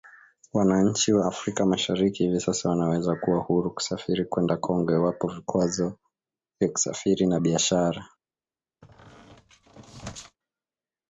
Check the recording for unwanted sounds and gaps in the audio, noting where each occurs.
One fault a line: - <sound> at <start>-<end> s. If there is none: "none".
- squeak at 8.8-10.4 s